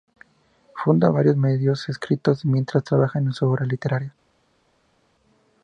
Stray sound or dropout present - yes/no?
no